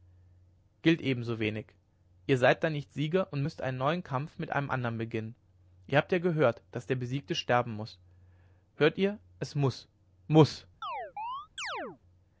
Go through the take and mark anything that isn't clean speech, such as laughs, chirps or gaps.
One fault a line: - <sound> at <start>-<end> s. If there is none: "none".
- chirp at 10.8-12.0 s